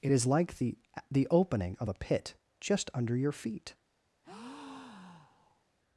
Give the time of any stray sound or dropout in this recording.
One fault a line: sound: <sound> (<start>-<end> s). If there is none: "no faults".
sound: breath (4.2-5.6 s)